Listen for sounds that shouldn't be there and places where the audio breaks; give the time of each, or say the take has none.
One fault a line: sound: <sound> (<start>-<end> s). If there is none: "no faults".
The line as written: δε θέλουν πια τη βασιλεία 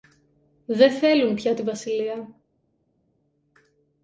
no faults